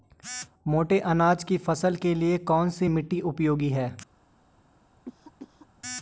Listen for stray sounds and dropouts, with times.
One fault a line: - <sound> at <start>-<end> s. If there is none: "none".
- cough at 5.1-5.7 s